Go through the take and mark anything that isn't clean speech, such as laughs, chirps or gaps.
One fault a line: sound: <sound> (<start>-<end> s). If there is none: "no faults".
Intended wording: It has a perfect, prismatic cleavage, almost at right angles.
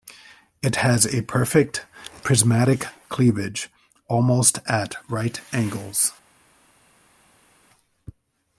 no faults